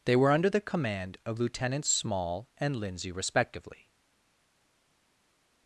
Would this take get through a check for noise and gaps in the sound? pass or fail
pass